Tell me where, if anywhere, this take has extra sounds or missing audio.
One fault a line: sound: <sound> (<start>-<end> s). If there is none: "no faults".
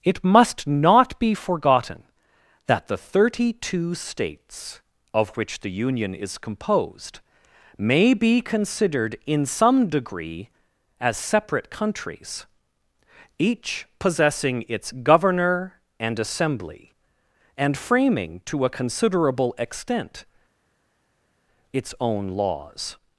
no faults